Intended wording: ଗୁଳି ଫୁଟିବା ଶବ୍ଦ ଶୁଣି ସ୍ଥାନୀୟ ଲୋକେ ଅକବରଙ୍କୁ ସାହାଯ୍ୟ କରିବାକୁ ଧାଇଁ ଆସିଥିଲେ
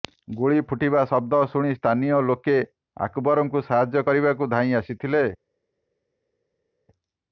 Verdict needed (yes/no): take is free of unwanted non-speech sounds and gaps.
yes